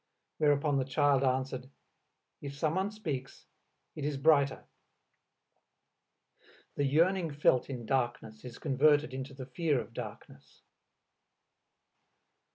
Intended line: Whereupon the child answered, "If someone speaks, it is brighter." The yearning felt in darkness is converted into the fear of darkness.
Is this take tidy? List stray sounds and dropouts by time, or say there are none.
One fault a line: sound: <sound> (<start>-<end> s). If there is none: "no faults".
no faults